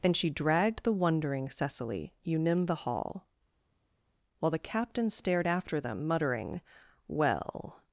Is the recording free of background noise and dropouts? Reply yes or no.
yes